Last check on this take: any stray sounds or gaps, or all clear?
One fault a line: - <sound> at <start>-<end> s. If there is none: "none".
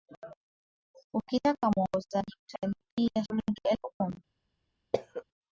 - cough at 4.9-5.2 s